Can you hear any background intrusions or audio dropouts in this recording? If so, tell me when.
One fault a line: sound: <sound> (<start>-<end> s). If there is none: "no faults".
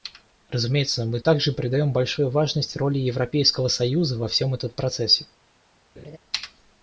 sound: laugh (6.0-6.2 s)